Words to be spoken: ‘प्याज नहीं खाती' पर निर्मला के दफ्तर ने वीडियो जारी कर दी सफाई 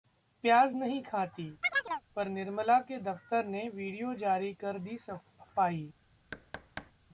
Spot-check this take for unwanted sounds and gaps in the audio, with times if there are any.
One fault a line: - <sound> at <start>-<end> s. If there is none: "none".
- chirp at 1.6-2.0 s
- thud at 6.3-6.9 s